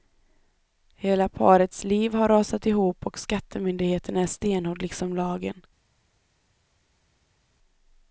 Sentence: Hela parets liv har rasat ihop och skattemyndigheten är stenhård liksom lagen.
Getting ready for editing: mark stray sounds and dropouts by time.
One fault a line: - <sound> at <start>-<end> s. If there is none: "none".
none